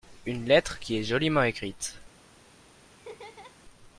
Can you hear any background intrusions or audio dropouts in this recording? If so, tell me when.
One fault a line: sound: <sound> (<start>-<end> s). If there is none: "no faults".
sound: laugh (2.9-3.6 s)